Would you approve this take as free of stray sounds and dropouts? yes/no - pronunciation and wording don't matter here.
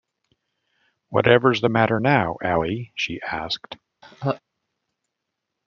no